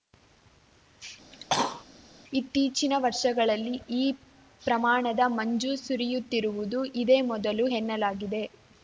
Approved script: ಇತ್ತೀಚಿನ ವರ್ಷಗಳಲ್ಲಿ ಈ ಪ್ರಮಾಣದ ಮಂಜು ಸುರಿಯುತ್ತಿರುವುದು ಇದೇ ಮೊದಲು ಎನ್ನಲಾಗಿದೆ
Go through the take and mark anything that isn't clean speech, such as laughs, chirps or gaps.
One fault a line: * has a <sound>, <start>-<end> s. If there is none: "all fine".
* has a cough, 1.3-1.8 s